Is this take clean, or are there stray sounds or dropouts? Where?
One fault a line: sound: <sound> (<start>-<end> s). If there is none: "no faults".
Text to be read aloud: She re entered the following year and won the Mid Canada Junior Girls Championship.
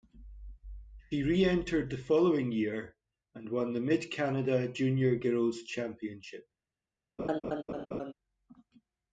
sound: laugh (7.2-8.1 s)